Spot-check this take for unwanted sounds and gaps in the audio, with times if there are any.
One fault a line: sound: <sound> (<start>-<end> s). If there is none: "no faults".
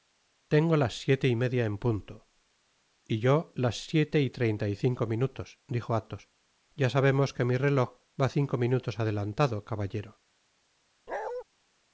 sound: bark (11.1-11.4 s)